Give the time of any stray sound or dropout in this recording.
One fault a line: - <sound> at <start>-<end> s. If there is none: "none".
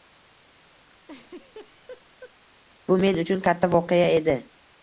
- laugh at 1.0-2.3 s